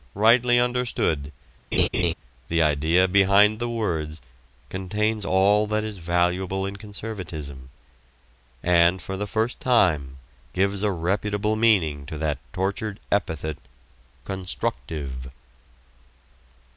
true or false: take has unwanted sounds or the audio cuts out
true